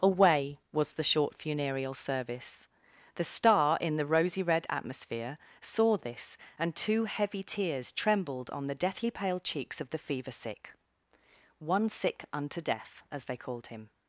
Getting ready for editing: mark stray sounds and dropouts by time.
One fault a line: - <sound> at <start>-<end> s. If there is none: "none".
none